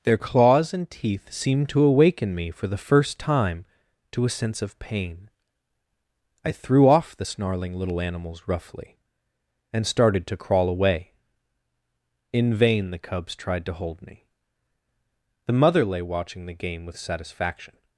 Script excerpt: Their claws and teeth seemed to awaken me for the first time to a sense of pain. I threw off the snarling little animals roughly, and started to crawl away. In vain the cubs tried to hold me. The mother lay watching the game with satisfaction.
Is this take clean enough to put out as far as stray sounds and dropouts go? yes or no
yes